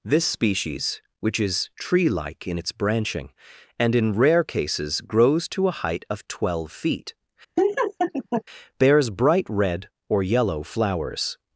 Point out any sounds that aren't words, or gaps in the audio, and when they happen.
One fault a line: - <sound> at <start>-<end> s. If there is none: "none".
- laugh at 7.6-8.4 s